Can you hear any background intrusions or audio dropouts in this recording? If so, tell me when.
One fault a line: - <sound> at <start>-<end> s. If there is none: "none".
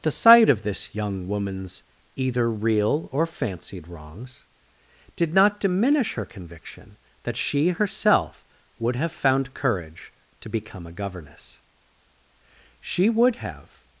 none